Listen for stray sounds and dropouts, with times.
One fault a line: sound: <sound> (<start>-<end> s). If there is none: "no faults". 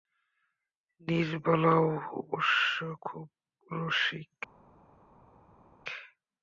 no faults